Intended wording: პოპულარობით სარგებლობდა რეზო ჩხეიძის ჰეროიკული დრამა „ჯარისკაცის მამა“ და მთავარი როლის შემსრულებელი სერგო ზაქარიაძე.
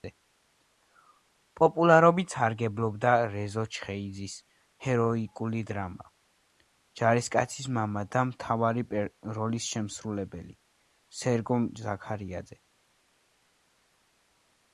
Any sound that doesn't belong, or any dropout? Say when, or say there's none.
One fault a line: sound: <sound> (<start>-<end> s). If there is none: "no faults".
no faults